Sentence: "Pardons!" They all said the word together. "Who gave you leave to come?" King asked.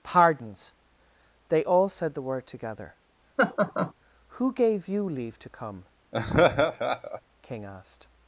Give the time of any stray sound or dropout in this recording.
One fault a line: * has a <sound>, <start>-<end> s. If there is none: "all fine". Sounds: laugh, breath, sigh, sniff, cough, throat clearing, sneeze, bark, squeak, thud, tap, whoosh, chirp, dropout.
* has a laugh, 3.4-3.9 s
* has a laugh, 6.1-7.2 s